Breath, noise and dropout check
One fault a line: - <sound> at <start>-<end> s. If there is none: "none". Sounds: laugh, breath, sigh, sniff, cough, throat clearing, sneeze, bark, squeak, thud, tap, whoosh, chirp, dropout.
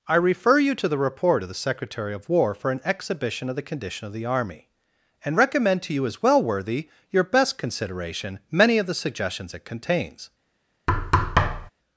- thud at 10.9-11.7 s